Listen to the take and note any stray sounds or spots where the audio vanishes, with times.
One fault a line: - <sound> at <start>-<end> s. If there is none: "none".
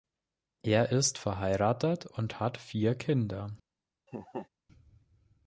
- laugh at 4.1-4.5 s